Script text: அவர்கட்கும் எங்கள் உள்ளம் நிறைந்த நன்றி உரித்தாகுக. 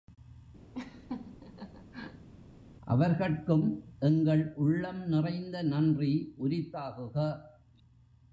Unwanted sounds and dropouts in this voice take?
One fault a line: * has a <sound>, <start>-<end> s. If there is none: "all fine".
* has a laugh, 0.7-2.3 s